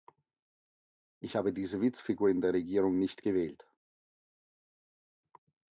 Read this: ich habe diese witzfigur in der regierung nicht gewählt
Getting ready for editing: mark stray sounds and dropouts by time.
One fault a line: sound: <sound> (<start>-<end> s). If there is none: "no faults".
no faults